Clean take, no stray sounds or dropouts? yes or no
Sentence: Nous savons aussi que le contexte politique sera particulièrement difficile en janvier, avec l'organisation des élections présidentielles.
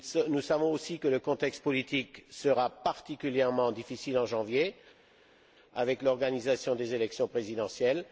yes